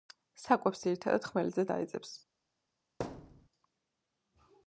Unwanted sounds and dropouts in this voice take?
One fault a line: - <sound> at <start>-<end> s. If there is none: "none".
- thud at 3.0-3.5 s